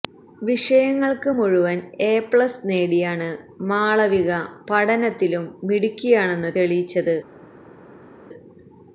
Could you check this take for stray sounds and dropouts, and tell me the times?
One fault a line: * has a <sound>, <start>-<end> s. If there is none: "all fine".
all fine